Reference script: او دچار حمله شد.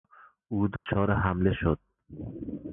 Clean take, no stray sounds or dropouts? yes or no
no